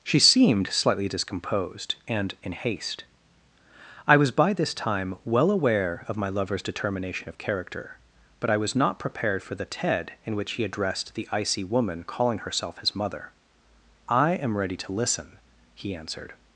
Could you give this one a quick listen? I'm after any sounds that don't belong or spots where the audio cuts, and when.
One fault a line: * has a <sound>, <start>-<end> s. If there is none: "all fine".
all fine